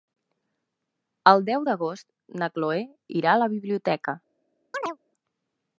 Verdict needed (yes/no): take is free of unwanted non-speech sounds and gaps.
no